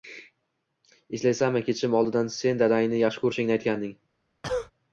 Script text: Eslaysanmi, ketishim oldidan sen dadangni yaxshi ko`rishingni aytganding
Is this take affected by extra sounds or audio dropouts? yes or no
yes